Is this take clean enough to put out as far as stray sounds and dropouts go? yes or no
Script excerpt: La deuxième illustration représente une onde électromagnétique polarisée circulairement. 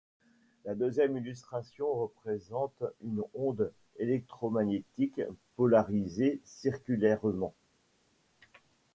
yes